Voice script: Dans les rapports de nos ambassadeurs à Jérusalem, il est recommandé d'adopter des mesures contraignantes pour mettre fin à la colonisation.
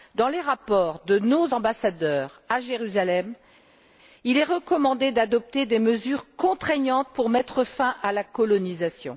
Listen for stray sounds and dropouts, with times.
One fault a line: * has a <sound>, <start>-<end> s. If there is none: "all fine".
all fine